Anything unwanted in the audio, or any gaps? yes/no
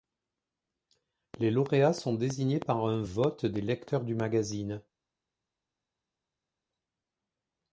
no